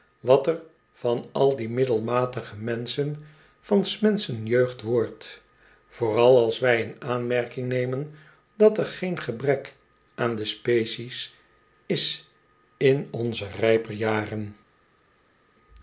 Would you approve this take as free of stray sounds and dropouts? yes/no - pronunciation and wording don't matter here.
yes